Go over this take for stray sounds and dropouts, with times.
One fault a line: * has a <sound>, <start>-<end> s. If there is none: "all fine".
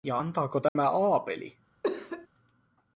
* has a dropout, 0.7-0.8 s
* has a cough, 1.8-2.3 s